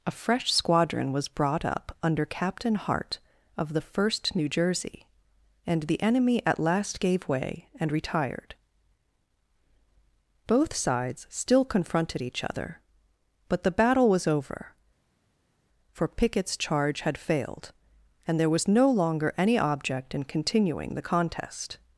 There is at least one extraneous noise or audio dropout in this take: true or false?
false